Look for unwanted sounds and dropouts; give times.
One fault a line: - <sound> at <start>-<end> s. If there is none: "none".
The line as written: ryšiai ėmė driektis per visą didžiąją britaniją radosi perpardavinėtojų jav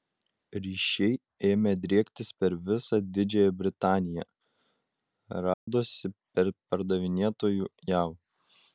- dropout at 5.5-5.7 s